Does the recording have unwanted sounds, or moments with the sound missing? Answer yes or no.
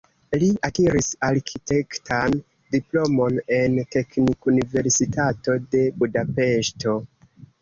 no